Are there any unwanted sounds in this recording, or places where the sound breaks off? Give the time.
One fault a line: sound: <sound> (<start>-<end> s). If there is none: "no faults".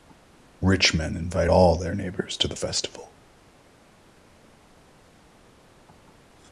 no faults